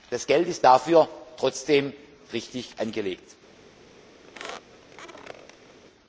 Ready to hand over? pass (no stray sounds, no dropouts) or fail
fail